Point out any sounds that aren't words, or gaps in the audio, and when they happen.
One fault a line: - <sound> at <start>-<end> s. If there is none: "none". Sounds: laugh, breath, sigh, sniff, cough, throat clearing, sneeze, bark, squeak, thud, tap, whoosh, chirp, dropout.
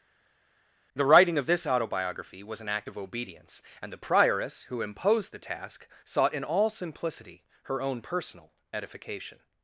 none